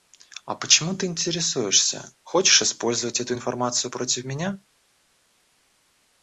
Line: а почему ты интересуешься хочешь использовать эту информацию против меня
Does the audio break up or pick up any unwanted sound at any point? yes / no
no